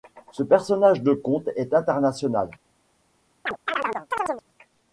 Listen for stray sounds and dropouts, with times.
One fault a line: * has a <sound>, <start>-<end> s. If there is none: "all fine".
* has a chirp, 3.5-4.4 s